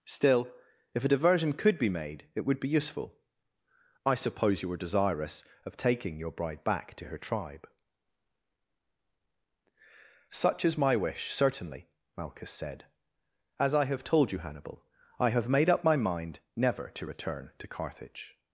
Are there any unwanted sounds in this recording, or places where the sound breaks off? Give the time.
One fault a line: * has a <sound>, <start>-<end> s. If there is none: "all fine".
all fine